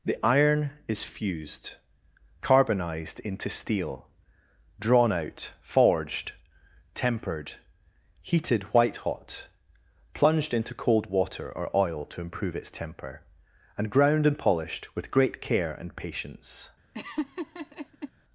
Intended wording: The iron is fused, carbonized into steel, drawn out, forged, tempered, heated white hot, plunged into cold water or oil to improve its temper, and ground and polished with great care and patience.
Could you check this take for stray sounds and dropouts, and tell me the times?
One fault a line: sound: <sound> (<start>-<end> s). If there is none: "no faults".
sound: laugh (16.9-18.1 s)